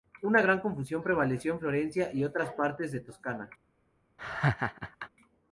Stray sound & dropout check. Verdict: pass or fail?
fail